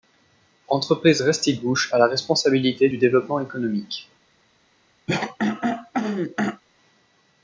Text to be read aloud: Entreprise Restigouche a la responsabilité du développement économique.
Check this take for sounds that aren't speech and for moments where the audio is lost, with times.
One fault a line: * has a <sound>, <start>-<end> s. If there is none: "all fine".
* has a throat clearing, 5.1-6.6 s